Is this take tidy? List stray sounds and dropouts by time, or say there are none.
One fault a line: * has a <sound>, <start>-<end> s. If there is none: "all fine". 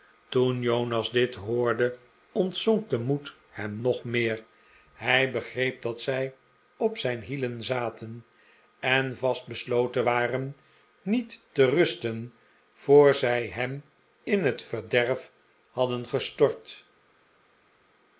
all fine